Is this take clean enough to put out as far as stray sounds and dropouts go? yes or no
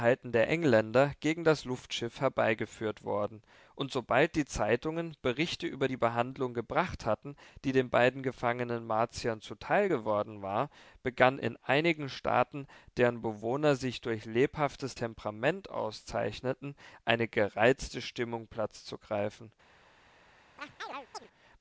no